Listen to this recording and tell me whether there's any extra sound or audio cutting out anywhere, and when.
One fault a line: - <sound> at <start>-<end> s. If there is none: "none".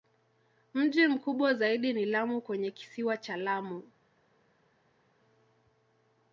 none